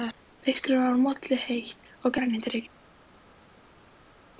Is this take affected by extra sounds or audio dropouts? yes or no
no